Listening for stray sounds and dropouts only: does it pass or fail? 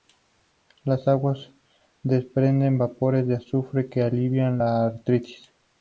pass